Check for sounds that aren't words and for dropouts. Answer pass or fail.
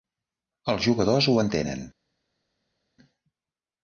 pass